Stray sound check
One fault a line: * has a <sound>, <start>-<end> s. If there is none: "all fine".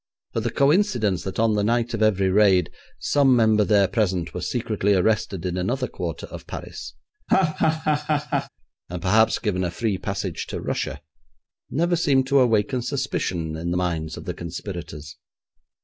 * has a laugh, 7.3-8.5 s